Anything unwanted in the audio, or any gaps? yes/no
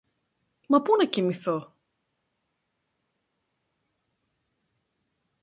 no